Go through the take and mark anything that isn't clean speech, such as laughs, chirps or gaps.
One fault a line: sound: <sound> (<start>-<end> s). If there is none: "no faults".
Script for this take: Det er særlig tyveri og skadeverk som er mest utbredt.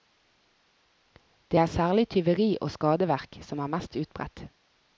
no faults